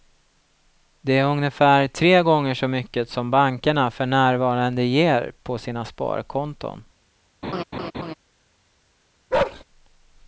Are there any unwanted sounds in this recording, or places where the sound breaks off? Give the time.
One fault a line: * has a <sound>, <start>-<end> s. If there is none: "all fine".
* has a laugh, 7.4-8.1 s
* has a bark, 9.3-9.6 s